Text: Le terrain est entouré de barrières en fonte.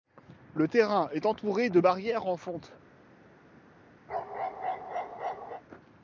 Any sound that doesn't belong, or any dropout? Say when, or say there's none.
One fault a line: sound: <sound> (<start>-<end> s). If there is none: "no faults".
sound: bark (4.1-5.6 s)